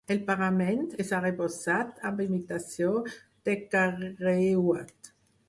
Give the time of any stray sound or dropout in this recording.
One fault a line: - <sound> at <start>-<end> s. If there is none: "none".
none